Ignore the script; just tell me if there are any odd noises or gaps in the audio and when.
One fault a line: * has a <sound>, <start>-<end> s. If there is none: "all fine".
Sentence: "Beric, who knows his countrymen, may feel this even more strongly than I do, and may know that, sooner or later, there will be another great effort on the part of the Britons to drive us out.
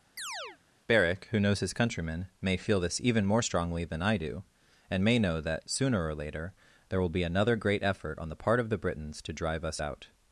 * has a chirp, 0.2-0.6 s